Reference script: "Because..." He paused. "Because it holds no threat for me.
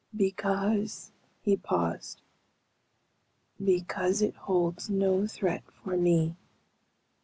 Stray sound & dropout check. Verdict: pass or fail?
pass